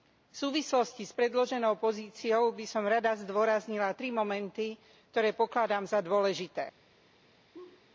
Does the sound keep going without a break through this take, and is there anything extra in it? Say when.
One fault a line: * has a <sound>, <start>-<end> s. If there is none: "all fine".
* has a laugh, 7.5-7.9 s